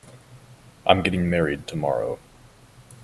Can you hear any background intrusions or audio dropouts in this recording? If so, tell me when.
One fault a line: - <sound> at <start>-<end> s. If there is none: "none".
none